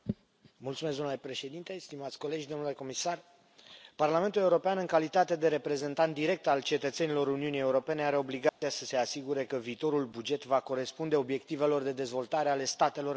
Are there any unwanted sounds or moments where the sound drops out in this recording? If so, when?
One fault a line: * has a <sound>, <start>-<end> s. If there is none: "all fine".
* has a dropout, 8.5-8.6 s